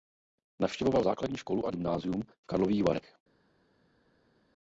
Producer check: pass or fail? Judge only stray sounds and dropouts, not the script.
pass